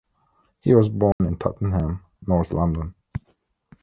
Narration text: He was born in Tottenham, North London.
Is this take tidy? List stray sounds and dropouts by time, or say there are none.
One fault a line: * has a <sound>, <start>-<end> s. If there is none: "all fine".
* has a dropout, 1.1-1.2 s